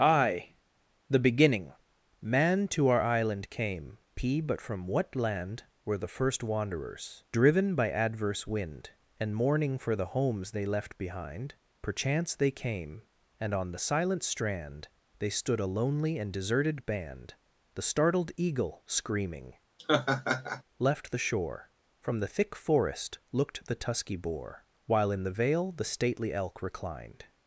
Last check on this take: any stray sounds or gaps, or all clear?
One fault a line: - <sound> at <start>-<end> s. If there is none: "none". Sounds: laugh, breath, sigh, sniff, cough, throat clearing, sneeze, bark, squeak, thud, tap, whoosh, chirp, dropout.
- laugh at 19.8-20.6 s